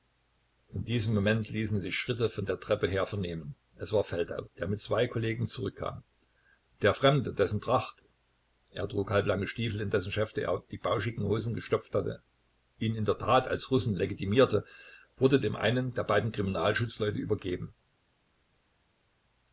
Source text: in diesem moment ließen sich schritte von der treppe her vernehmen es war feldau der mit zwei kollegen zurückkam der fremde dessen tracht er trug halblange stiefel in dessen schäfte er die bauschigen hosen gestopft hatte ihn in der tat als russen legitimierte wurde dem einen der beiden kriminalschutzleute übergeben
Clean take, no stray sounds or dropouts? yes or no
yes